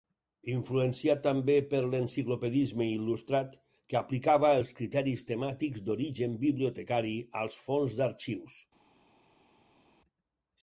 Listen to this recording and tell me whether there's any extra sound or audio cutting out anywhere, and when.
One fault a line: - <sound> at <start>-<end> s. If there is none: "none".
none